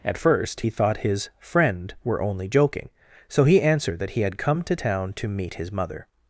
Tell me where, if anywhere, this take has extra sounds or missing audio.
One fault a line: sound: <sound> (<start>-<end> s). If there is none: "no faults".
no faults